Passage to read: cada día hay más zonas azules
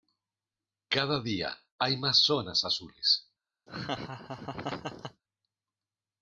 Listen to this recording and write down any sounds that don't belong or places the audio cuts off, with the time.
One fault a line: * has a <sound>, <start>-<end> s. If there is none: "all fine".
* has a laugh, 3.7-5.2 s